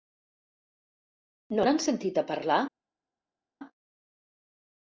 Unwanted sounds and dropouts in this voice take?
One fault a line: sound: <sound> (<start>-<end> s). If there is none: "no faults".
no faults